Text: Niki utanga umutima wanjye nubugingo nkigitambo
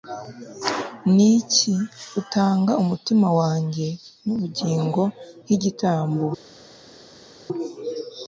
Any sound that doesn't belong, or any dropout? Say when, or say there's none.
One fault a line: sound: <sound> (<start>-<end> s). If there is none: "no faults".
no faults